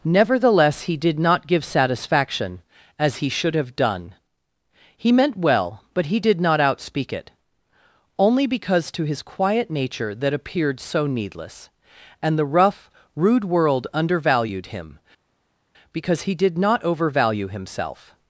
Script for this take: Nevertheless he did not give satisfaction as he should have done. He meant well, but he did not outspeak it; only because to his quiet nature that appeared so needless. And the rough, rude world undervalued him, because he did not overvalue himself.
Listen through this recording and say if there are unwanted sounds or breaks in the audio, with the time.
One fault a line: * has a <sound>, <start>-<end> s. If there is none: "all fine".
all fine